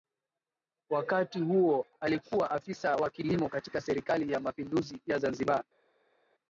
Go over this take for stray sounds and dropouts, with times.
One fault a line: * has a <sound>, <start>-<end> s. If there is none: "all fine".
all fine